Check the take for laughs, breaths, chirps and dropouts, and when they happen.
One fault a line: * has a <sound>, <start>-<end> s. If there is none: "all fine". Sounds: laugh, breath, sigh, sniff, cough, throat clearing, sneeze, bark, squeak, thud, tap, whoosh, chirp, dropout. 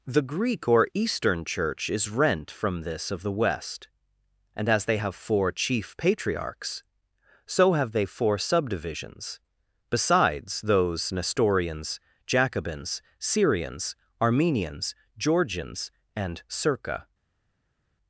all fine